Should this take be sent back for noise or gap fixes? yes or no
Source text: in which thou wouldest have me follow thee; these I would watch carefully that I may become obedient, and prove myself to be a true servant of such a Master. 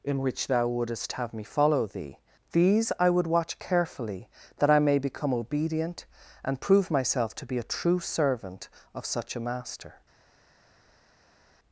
no